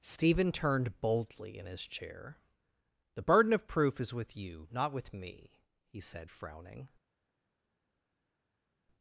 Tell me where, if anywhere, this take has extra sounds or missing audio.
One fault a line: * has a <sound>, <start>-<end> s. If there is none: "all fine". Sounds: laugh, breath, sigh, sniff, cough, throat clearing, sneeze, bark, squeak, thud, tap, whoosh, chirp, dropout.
all fine